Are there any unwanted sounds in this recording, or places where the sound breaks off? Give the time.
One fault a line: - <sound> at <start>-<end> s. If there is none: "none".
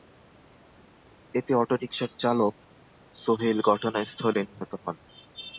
none